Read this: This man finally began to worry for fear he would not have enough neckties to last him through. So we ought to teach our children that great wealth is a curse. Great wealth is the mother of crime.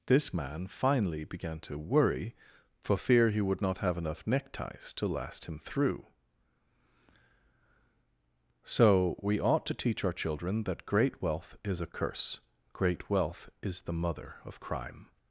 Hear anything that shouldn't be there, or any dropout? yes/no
no